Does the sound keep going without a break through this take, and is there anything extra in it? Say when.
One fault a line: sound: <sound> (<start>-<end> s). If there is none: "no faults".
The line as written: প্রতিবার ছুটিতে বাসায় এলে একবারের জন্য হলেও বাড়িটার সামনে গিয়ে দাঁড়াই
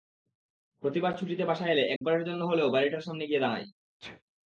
sound: dropout (2.0-2.0 s)
sound: sneeze (4.0-4.2 s)